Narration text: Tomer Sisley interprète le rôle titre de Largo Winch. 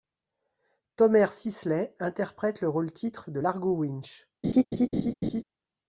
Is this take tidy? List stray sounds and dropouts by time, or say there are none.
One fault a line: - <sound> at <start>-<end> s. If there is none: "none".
- laugh at 4.4-5.4 s